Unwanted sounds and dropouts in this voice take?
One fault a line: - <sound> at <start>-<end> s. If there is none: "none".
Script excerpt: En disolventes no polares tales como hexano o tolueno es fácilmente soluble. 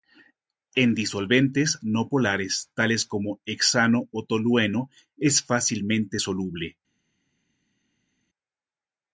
none